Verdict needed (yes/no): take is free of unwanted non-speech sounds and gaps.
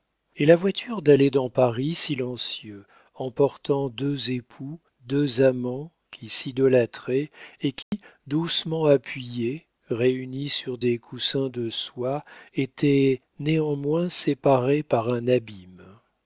no